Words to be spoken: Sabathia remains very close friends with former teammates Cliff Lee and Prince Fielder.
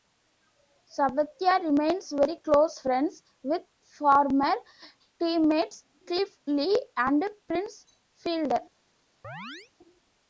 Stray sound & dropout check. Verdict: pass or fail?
fail